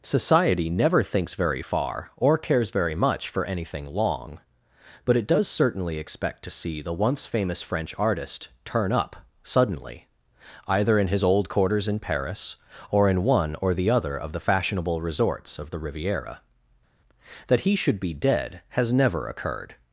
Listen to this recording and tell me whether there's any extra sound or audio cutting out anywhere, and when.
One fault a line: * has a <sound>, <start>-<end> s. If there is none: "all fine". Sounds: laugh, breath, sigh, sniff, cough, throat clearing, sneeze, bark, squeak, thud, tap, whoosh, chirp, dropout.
all fine